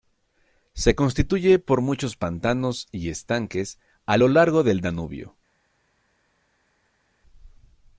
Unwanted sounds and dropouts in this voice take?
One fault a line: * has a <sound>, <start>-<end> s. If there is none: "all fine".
all fine